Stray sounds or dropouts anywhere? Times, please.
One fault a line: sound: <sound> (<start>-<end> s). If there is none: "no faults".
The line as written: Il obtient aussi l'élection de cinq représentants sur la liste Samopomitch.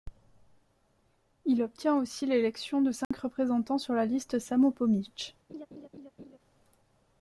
sound: dropout (3.0-3.1 s)
sound: laugh (5.5-6.4 s)